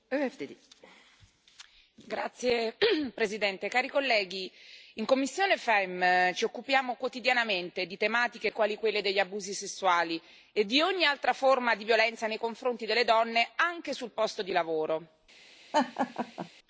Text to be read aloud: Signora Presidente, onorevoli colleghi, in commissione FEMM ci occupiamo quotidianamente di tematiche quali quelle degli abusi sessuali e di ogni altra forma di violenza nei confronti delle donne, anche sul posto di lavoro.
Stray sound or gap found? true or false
true